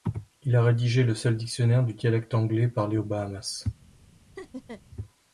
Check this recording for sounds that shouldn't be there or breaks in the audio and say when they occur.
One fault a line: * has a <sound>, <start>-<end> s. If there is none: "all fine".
* has a laugh, 4.4-4.8 s